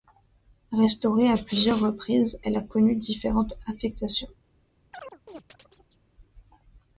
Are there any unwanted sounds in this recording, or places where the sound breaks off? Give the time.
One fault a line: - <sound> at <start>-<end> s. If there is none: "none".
- chirp at 4.9-6.0 s